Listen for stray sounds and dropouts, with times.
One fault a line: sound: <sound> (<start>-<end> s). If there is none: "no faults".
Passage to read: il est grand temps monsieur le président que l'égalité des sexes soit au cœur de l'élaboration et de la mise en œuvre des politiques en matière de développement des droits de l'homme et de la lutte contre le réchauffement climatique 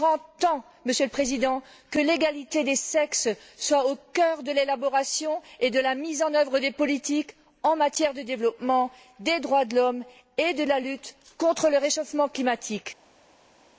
no faults